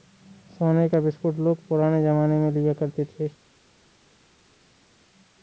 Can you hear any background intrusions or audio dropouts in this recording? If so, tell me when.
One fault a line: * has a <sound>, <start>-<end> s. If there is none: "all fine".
all fine